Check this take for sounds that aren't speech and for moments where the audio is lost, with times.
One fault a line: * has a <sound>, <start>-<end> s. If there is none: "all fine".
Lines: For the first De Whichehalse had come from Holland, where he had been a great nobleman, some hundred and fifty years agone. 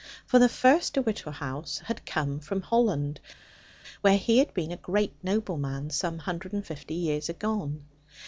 all fine